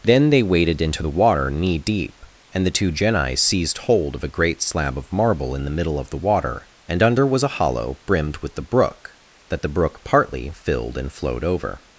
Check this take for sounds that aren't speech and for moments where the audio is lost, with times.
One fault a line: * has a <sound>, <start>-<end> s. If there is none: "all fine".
all fine